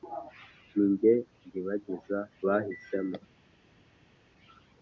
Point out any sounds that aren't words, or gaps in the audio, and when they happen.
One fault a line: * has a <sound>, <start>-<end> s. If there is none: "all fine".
all fine